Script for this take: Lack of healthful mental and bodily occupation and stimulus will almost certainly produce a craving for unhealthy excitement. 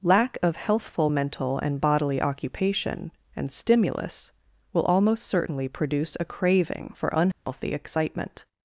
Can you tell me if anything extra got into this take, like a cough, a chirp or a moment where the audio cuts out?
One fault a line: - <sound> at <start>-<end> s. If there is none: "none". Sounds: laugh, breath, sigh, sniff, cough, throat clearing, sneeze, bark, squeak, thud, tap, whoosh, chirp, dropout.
- dropout at 7.3-7.5 s